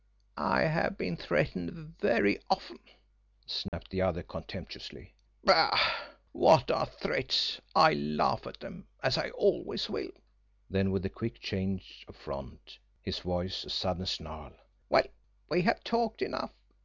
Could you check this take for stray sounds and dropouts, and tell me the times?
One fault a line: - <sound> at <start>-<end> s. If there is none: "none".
- dropout at 3.7-3.7 s